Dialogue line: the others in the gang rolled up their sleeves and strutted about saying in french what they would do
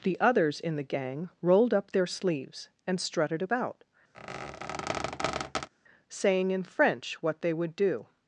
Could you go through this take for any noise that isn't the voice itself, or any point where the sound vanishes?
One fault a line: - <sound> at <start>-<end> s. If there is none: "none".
- squeak at 4.1-5.7 s